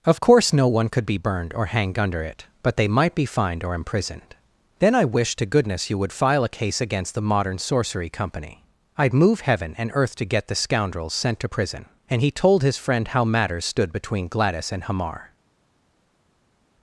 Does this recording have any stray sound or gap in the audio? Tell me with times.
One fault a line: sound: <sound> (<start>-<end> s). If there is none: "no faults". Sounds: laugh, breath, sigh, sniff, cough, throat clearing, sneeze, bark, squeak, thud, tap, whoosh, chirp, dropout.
no faults